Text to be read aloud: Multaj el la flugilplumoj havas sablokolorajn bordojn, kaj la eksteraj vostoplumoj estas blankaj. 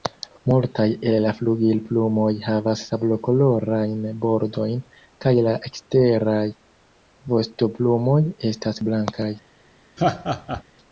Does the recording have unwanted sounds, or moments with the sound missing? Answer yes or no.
yes